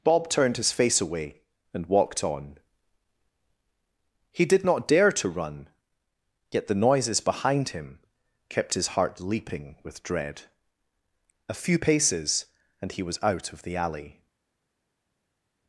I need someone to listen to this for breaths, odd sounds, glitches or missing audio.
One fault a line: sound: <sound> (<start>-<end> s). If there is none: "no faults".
no faults